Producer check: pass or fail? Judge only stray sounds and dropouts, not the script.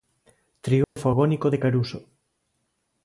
fail